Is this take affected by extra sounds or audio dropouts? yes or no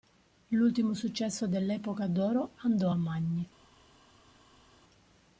no